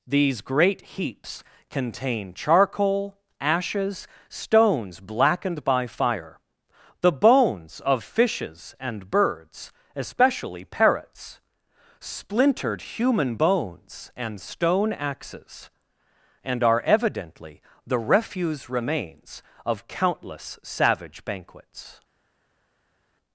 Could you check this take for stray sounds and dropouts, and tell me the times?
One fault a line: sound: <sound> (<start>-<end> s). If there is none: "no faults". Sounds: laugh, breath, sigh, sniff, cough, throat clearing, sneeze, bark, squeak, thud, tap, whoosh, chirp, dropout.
no faults